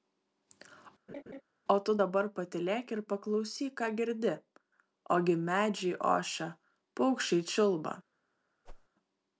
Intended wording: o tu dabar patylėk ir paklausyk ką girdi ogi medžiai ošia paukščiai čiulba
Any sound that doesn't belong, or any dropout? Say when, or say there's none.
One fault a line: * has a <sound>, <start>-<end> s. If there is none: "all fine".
* has a laugh, 1.1-1.4 s
* has a whoosh, 8.7-8.9 s